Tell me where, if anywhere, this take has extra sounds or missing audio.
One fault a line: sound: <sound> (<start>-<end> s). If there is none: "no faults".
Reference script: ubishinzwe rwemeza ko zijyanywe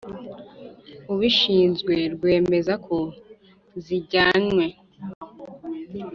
no faults